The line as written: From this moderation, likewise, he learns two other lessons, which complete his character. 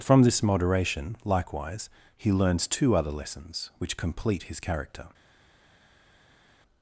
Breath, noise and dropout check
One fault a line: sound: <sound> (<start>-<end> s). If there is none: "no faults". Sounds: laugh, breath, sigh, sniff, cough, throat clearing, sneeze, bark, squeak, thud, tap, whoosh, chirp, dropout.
no faults